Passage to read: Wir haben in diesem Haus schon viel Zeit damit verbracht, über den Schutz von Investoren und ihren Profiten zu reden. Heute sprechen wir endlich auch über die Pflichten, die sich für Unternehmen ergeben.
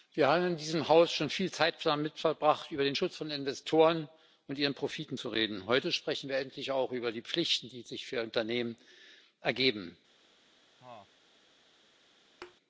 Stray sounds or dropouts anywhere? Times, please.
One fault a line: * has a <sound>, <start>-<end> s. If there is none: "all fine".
* has a cough, 10.8-11.1 s
* has a thud, 12.4-12.6 s